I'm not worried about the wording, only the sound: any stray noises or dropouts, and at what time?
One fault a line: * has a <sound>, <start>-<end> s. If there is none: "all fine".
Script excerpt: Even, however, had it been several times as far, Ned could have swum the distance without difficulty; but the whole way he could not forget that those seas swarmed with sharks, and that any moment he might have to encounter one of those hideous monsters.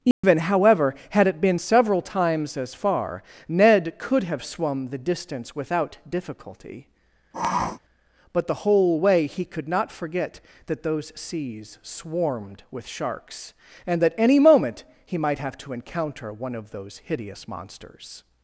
* has a dropout, 0.1-0.2 s
* has a sniff, 7.3-7.8 s